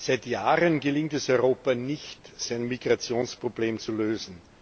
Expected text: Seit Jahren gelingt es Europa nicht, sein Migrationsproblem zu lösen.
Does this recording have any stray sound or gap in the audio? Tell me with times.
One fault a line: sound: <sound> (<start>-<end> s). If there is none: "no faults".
no faults